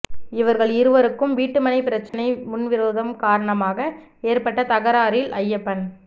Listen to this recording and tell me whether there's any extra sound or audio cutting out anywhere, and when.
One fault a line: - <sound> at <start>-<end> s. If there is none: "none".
- dropout at 2.1-2.1 s